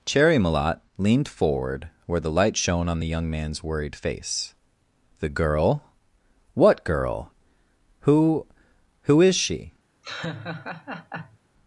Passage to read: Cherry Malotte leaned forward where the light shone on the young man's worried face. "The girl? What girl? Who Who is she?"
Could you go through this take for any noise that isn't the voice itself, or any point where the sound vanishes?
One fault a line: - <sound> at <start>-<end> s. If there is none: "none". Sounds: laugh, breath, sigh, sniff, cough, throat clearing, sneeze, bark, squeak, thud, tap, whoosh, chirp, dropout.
- laugh at 10.0-11.4 s